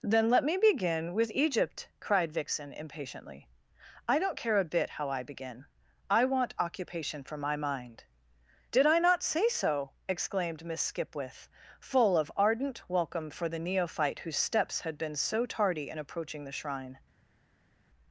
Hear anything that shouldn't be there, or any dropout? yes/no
no